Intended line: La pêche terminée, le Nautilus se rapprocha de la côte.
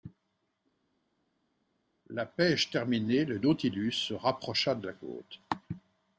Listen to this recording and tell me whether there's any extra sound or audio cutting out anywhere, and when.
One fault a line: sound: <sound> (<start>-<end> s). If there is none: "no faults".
no faults